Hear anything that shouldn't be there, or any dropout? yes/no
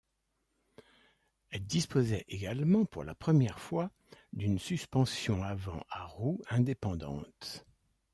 no